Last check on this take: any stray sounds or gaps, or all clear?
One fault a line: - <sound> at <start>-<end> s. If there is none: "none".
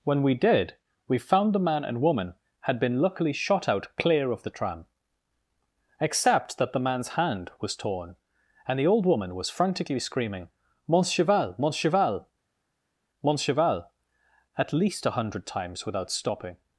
none